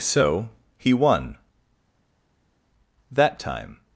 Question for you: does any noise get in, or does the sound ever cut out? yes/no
no